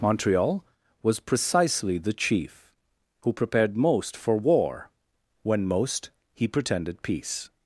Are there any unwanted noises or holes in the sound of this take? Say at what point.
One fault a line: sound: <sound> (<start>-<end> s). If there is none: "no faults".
no faults